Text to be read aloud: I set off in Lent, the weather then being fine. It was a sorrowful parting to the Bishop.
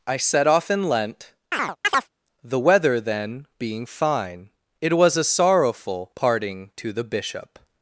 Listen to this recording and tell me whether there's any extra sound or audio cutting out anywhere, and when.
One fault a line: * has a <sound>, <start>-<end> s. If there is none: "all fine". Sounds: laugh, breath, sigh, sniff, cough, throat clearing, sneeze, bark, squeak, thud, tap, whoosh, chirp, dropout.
* has a chirp, 1.5-2.1 s